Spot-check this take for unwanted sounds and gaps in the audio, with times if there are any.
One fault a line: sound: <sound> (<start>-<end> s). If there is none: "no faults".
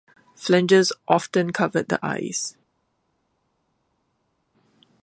no faults